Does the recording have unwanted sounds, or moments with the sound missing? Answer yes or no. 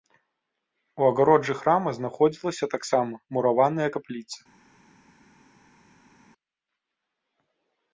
no